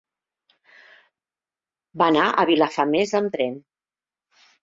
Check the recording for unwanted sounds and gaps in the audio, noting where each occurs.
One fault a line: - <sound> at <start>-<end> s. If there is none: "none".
none